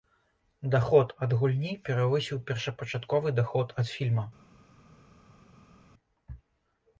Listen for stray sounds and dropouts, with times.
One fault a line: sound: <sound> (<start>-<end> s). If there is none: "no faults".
no faults